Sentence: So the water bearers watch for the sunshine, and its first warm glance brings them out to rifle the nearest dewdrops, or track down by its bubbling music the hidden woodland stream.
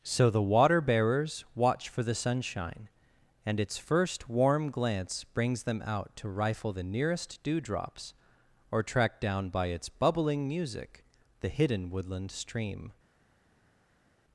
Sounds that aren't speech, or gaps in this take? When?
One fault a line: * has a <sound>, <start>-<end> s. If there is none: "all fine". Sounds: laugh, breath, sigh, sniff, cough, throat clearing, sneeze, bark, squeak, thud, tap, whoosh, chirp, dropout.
all fine